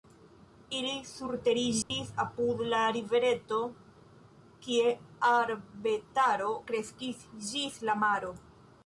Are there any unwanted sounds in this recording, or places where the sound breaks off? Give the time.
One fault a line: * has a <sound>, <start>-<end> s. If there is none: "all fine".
* has a dropout, 1.8-1.9 s